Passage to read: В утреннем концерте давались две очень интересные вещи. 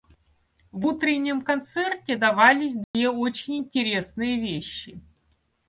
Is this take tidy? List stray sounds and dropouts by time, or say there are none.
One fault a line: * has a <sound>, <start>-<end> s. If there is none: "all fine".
* has a dropout, 2.8-2.9 s